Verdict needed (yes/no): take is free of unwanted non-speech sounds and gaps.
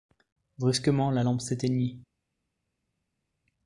yes